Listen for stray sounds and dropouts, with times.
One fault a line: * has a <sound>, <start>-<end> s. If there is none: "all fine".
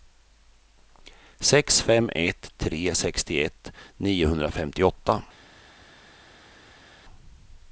all fine